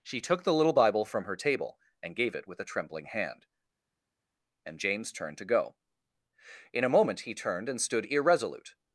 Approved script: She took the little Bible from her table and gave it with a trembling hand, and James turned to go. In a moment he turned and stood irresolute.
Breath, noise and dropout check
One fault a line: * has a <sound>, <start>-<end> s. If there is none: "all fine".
all fine